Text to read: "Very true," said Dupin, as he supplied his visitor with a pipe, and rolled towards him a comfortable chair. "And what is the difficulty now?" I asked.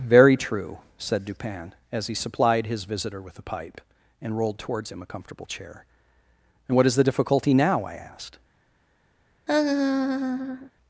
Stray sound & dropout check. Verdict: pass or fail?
fail